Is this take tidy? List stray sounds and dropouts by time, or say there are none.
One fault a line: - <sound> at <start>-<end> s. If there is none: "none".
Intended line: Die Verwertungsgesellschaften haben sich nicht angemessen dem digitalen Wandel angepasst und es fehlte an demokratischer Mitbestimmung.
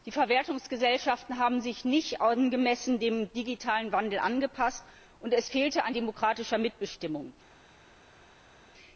none